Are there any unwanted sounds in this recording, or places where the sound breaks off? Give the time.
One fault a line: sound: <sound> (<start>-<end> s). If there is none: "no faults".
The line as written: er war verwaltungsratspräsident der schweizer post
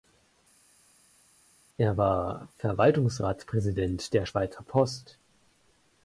no faults